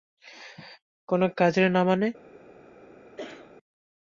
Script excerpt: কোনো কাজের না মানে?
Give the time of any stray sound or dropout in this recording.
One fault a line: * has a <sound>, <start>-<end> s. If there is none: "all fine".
* has a cough, 3.2-3.5 s